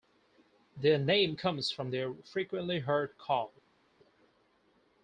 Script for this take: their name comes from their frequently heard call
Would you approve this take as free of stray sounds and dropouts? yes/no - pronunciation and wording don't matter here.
yes